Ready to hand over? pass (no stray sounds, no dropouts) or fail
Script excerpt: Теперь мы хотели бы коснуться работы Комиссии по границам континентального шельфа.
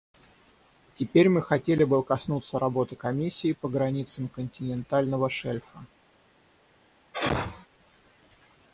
fail